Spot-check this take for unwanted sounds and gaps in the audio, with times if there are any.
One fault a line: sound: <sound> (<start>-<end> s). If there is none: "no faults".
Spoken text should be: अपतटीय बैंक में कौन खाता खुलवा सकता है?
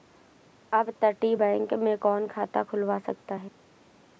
no faults